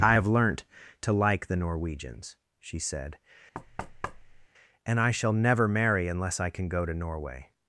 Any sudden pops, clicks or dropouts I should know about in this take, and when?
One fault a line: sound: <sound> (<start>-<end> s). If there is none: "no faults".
sound: thud (3.5-4.5 s)